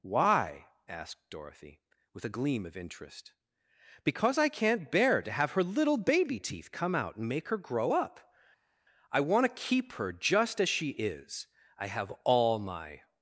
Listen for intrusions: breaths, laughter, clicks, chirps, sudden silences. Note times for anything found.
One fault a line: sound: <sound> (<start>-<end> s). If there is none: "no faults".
no faults